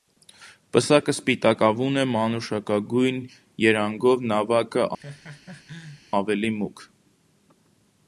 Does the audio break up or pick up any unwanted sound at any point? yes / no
yes